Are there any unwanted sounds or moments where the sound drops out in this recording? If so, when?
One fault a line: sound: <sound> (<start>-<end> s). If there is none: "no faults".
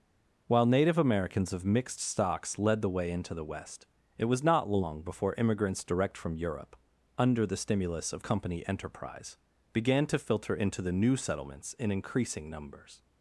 no faults